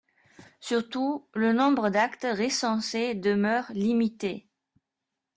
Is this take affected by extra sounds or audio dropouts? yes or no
no